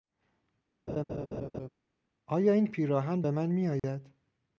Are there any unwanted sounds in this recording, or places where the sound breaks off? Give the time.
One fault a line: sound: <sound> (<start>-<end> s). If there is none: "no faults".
sound: laugh (0.9-1.7 s)
sound: dropout (3.8-3.8 s)